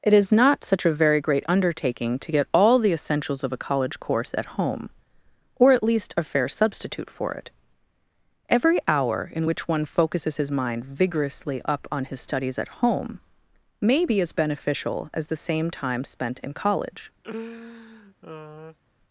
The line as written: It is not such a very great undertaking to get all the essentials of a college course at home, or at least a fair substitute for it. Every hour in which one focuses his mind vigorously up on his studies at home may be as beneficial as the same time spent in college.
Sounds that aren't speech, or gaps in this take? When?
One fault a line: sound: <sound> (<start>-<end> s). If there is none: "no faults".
sound: laugh (17.2-18.8 s)